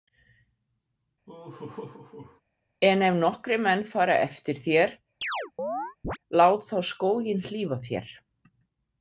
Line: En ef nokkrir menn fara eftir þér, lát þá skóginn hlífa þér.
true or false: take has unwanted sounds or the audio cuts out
true